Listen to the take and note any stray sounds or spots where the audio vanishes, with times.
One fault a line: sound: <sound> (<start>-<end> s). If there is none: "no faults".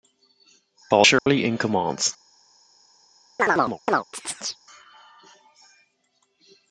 sound: dropout (1.2-1.3 s)
sound: chirp (3.4-4.6 s)